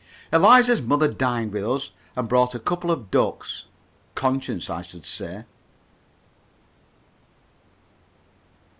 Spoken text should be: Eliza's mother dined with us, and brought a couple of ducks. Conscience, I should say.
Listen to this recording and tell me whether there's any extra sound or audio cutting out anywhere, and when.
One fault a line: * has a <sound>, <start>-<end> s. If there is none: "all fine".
all fine